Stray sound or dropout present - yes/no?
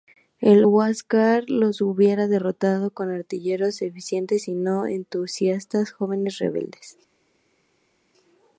no